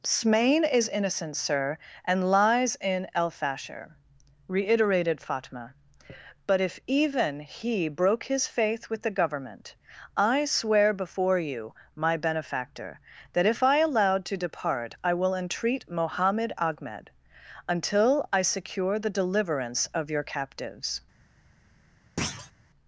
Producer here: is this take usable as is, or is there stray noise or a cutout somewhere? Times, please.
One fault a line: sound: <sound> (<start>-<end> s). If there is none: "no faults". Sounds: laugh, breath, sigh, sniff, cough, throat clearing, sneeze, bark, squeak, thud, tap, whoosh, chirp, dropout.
sound: thud (22.2-22.5 s)